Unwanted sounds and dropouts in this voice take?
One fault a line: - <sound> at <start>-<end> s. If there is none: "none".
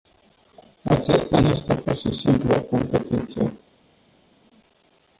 none